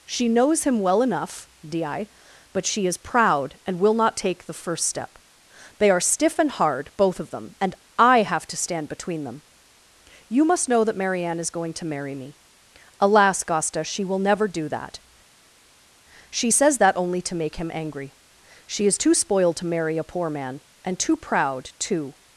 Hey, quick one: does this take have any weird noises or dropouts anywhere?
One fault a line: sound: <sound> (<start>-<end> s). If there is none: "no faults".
no faults